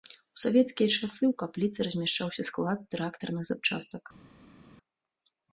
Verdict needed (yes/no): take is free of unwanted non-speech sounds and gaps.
yes